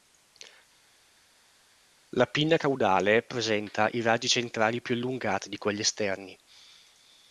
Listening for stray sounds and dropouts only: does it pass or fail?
pass